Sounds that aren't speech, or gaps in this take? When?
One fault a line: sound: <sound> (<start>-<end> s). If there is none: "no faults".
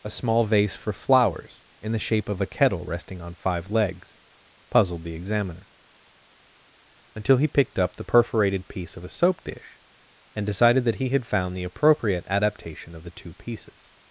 no faults